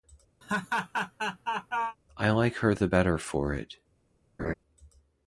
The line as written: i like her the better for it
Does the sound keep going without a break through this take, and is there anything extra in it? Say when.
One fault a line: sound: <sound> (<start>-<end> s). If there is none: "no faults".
sound: laugh (0.4-2.0 s)
sound: laugh (4.4-4.5 s)